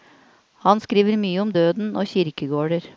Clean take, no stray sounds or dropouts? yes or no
yes